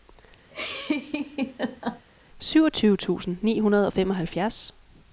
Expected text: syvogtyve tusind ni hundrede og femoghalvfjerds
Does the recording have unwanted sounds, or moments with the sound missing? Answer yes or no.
yes